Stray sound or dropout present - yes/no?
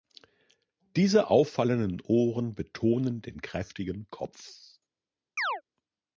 yes